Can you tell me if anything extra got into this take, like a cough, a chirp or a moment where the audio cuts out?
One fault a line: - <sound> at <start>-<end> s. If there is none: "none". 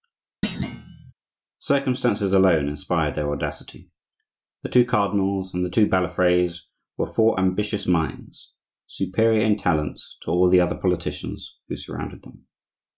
- thud at 0.4-1.1 s